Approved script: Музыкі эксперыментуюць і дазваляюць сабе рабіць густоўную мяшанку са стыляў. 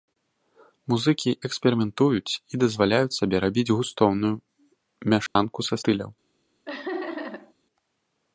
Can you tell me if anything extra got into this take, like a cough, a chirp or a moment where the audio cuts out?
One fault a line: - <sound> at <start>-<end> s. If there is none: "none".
- dropout at 5.3-5.4 s
- laugh at 6.7-7.5 s